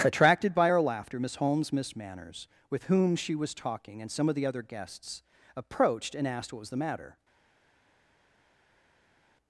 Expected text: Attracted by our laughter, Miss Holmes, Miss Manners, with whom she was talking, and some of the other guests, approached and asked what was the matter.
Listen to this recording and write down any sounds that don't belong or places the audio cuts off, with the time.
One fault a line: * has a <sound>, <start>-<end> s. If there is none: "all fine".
all fine